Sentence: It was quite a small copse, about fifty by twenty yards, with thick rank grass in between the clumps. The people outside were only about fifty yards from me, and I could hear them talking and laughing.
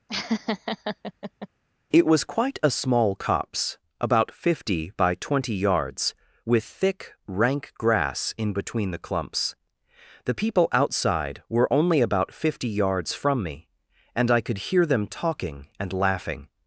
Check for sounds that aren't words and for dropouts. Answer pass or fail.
fail